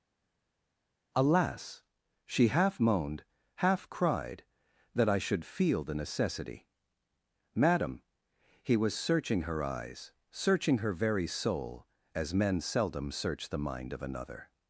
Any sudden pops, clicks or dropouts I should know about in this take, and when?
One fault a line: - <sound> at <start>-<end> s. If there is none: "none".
none